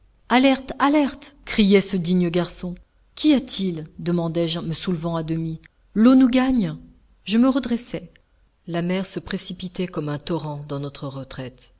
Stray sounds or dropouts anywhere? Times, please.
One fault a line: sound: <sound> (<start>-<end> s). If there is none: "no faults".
no faults